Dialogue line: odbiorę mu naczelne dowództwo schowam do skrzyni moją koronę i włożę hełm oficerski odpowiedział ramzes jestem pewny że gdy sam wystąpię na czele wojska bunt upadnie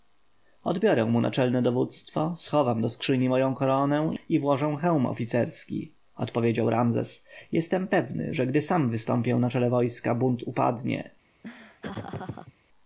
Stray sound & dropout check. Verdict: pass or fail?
fail